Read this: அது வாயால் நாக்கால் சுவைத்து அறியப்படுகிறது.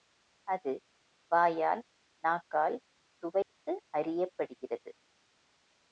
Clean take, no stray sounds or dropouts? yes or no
no